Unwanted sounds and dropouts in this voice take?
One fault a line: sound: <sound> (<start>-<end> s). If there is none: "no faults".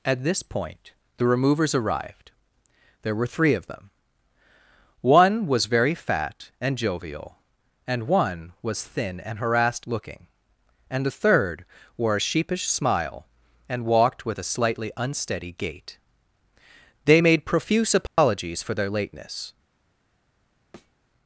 sound: dropout (18.1-18.2 s)
sound: thud (20.7-20.9 s)